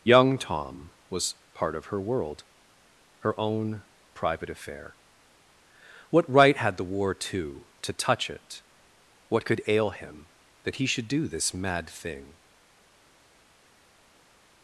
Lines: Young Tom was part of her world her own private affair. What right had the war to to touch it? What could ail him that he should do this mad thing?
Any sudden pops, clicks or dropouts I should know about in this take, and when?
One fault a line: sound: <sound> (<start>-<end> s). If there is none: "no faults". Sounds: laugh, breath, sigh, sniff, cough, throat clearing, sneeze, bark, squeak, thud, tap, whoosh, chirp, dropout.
no faults